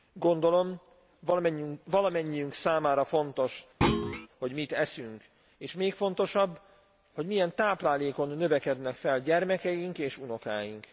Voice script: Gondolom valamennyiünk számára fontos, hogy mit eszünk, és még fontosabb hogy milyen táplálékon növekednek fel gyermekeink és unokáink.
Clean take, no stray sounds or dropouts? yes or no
no